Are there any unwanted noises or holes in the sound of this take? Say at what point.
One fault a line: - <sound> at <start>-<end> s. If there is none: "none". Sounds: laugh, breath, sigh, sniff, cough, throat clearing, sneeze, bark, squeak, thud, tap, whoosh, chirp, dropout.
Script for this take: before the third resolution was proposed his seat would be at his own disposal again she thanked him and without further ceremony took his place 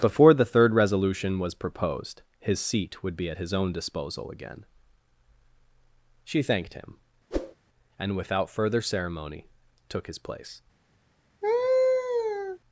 - whoosh at 7.3-7.6 s
- laugh at 11.4-12.6 s